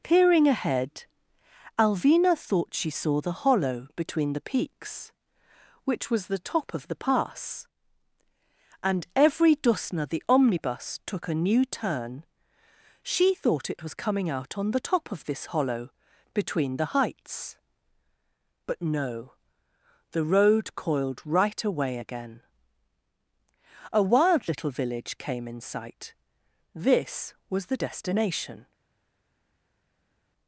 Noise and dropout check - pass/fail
pass